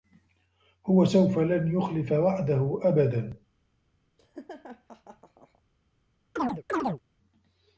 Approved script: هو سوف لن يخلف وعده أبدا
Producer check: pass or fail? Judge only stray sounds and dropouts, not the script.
fail